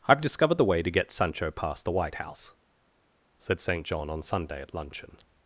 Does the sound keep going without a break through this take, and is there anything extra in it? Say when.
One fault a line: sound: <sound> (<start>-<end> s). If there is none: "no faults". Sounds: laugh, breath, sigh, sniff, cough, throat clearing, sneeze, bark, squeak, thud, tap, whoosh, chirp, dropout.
no faults